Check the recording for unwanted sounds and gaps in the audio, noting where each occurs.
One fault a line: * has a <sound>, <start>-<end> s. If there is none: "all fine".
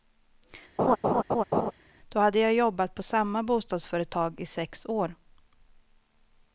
* has a laugh, 0.8-1.7 s